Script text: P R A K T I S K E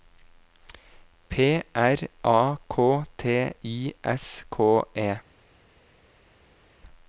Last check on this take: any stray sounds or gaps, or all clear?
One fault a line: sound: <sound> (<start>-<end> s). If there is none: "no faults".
no faults